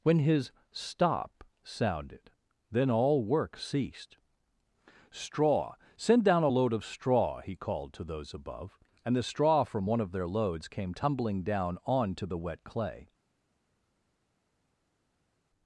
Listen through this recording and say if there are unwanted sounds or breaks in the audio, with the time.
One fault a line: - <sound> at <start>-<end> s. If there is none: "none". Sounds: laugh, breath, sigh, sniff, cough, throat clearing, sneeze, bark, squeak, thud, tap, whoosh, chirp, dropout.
none